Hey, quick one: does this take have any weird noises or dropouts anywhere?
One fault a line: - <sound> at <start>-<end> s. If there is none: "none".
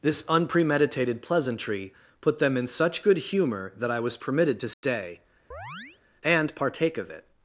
- dropout at 4.7-4.8 s
- chirp at 5.5-6.0 s